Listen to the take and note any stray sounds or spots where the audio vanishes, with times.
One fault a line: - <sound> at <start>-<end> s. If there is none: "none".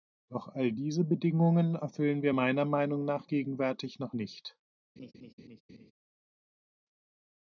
- laugh at 5.0-5.9 s